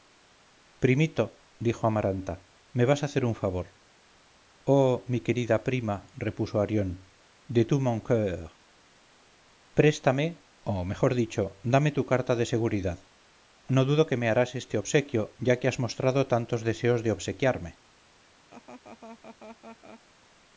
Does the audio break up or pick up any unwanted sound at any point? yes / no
yes